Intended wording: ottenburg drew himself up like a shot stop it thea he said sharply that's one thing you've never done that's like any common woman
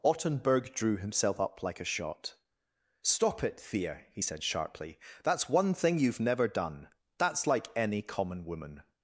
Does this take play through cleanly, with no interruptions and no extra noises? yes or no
yes